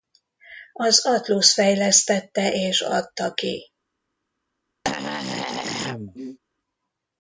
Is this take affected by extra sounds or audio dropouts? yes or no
yes